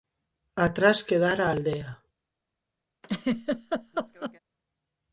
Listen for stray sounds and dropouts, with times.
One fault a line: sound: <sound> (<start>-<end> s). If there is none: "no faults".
sound: laugh (3.0-4.4 s)